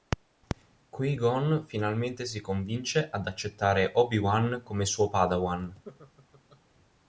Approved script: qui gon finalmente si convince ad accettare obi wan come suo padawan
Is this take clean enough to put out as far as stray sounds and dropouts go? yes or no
no